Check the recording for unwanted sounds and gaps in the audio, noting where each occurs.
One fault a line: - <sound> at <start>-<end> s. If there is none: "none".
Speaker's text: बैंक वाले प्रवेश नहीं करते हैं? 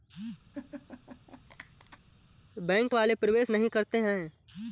- laugh at 0.5-2.0 s